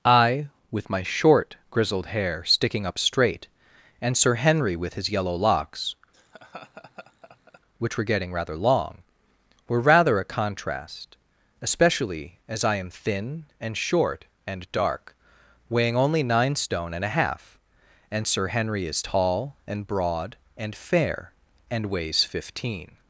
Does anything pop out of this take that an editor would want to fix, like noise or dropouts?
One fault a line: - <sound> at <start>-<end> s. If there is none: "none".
- laugh at 6.1-7.6 s